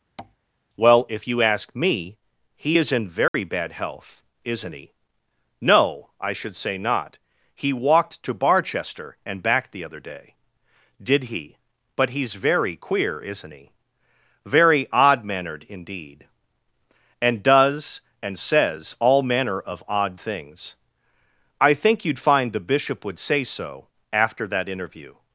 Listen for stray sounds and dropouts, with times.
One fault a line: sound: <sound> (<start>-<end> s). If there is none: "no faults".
sound: tap (0.2-0.4 s)
sound: dropout (3.3-3.3 s)